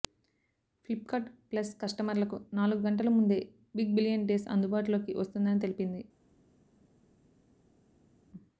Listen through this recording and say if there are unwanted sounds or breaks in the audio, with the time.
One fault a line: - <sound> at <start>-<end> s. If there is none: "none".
none